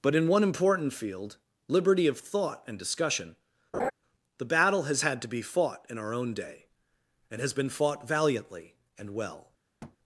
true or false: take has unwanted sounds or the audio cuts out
true